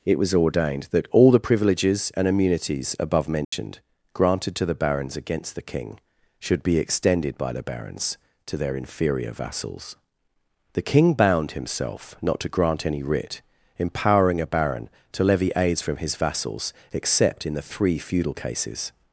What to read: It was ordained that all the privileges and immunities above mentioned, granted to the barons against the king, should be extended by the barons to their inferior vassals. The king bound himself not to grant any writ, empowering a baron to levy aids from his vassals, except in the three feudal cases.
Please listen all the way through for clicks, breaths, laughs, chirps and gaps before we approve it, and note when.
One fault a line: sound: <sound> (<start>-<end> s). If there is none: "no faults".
sound: dropout (3.4-3.5 s)